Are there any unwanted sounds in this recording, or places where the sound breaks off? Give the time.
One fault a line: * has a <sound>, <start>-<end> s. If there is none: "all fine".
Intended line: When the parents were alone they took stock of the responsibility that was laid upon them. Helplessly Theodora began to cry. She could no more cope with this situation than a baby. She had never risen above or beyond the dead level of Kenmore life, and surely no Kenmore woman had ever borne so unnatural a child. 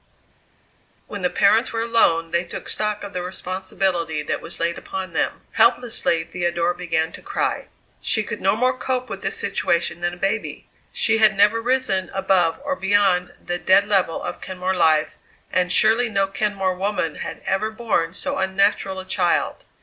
all fine